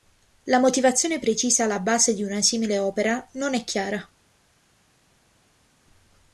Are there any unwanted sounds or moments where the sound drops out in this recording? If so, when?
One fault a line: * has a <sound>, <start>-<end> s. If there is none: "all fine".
all fine